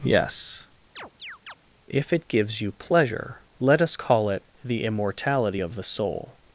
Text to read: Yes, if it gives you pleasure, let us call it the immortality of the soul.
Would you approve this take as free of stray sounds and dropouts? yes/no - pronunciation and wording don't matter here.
no